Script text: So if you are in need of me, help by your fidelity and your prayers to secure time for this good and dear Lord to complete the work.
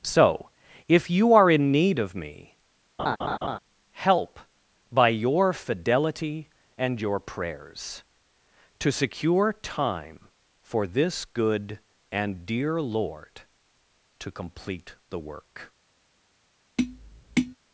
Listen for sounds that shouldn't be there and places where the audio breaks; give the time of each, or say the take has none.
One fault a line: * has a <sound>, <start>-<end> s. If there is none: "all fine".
* has a laugh, 3.0-3.6 s
* has a tap, 16.8-17.6 s